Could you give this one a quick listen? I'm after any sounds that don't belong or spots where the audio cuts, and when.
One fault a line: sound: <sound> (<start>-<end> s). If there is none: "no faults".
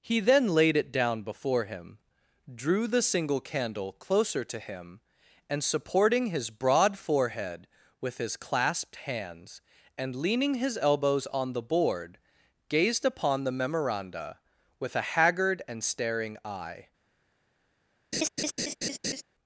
sound: laugh (18.1-19.2 s)